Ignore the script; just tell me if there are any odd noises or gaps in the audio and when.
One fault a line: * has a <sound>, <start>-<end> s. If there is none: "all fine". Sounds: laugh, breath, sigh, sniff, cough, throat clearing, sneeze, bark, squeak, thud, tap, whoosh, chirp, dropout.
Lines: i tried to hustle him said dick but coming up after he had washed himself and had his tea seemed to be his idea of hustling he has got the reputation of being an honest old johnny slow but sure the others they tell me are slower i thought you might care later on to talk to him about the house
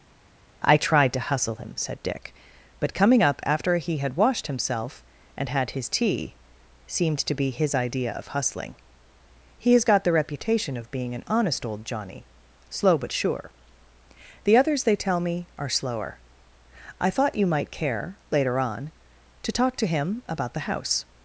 all fine